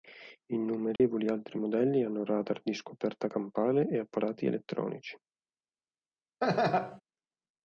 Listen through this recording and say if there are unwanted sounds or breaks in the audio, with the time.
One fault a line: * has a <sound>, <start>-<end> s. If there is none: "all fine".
* has a dropout, 1.0-1.0 s
* has a laugh, 6.4-7.0 s